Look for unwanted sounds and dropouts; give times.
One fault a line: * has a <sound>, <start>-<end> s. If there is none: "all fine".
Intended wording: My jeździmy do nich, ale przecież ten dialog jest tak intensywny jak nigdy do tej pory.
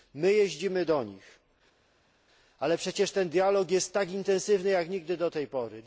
all fine